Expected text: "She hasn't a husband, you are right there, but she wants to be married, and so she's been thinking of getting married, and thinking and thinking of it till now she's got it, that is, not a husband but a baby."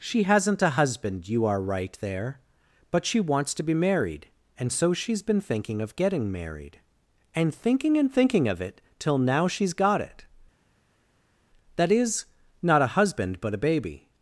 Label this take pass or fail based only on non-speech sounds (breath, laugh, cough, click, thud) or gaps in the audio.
pass